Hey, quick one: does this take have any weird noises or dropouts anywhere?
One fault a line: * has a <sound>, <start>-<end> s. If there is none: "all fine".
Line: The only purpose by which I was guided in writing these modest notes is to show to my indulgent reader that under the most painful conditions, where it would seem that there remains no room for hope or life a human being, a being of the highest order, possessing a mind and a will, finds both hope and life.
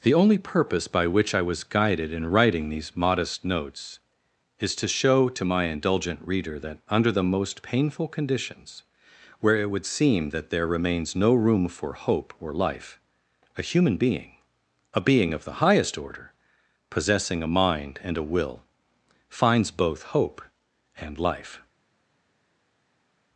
all fine